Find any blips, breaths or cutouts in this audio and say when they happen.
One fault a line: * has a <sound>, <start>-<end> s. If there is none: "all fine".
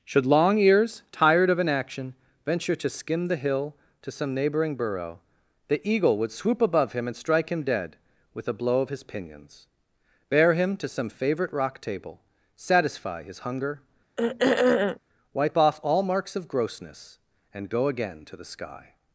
* has a throat clearing, 14.2-15.0 s